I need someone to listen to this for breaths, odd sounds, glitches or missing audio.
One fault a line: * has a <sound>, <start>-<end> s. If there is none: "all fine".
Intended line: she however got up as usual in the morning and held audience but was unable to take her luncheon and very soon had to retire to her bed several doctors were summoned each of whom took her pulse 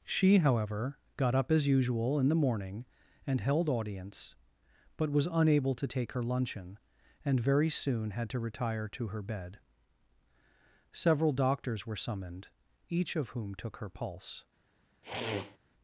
* has a sniff, 15.0-15.6 s